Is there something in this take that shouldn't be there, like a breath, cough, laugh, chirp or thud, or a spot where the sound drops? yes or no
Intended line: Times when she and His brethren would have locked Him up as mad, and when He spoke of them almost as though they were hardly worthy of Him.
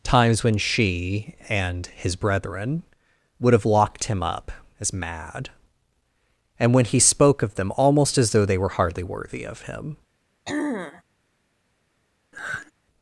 yes